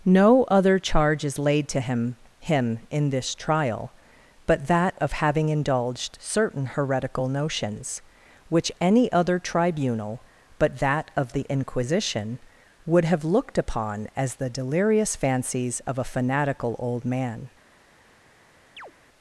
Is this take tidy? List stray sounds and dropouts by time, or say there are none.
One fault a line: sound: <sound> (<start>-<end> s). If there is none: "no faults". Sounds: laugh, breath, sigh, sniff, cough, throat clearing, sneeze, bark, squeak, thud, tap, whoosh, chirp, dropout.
sound: chirp (18.8-18.9 s)